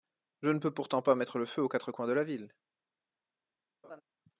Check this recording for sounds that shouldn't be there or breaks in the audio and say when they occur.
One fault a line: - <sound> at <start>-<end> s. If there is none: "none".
- laugh at 3.8-4.0 s